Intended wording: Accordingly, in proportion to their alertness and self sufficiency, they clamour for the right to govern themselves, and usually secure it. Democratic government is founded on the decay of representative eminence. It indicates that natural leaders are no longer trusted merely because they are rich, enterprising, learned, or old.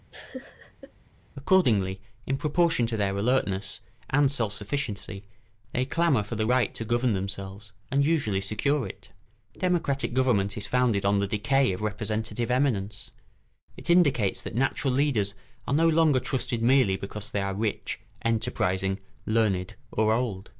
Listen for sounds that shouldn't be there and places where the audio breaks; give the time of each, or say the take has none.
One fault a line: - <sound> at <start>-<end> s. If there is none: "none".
- laugh at 0.1-0.9 s